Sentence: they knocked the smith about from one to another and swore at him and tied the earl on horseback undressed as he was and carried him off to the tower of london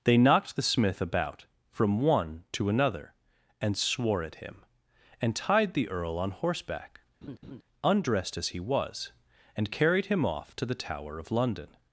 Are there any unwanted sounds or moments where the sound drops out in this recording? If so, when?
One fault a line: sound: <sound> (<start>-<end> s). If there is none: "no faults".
sound: laugh (7.2-7.6 s)